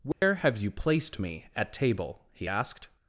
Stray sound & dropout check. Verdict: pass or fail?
fail